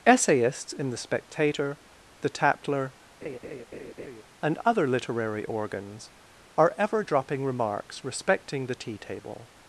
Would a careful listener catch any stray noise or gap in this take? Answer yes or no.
yes